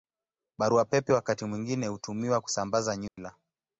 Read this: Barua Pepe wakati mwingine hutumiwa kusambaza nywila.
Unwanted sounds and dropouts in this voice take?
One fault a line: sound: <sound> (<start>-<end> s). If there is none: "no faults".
sound: dropout (3.1-3.2 s)